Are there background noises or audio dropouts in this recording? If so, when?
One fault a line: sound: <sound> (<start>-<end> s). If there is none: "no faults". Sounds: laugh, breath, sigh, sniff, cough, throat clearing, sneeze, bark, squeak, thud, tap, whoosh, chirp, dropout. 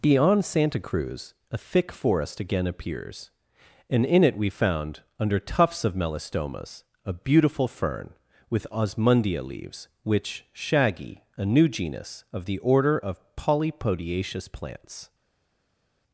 no faults